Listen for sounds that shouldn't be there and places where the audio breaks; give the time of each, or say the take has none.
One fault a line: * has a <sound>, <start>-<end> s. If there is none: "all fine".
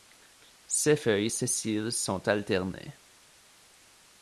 all fine